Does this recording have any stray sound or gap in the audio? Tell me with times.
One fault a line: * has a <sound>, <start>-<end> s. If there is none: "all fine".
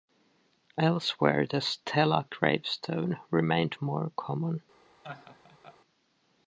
* has a laugh, 5.0-5.8 s